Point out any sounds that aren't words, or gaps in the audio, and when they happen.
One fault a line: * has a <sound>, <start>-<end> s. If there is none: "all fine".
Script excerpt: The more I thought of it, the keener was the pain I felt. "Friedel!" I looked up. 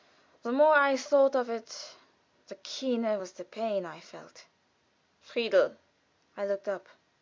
all fine